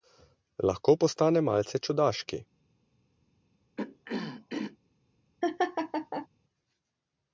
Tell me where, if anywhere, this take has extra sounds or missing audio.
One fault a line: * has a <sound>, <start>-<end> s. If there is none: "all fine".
* has a throat clearing, 3.8-4.8 s
* has a laugh, 5.4-6.3 s